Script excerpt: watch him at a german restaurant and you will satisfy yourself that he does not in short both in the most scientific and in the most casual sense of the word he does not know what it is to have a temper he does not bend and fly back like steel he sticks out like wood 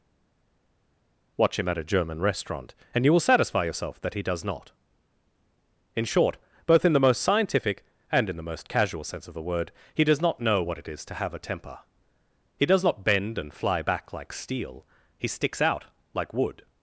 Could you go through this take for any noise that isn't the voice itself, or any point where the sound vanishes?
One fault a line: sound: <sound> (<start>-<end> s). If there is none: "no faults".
no faults